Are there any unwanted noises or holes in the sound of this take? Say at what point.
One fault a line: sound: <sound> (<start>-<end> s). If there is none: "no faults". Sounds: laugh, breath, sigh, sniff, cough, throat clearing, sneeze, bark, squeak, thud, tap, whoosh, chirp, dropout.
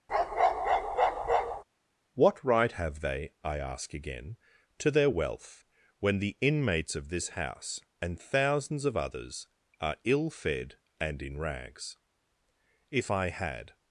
sound: bark (0.1-1.6 s)